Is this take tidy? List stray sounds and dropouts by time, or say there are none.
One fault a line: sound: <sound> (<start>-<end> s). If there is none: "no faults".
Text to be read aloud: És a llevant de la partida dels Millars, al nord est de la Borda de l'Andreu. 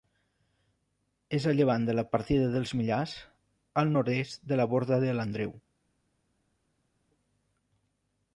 no faults